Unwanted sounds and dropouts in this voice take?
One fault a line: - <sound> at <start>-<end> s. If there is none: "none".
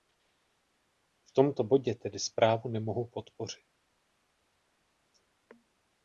none